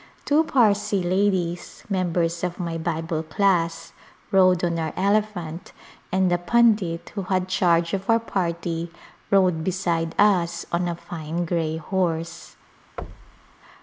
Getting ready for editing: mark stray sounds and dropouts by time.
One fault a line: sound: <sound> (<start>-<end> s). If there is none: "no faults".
sound: thud (13.0-13.5 s)